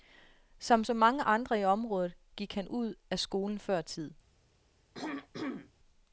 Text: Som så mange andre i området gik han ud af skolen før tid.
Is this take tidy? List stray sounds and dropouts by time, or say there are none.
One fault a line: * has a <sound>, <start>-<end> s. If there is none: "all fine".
* has a throat clearing, 4.9-5.7 s